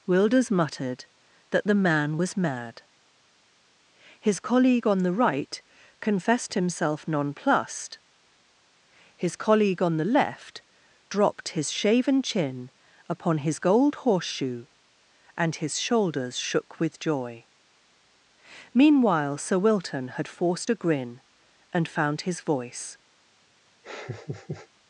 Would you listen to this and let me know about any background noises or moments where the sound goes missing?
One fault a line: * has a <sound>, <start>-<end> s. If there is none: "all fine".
* has a laugh, 23.8-24.7 s